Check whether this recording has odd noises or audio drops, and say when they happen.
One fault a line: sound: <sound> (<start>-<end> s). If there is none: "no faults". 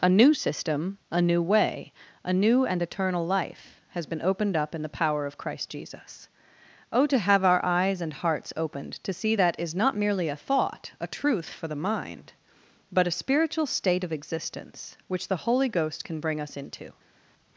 no faults